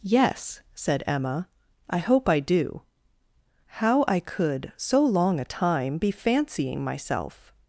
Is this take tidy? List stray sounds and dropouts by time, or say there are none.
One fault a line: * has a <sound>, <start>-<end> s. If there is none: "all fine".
all fine